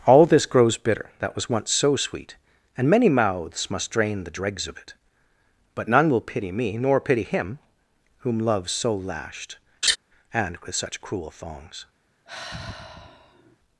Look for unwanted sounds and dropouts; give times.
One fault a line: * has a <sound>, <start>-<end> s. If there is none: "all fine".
* has a laugh, 9.8-10.0 s
* has a sigh, 12.3-13.6 s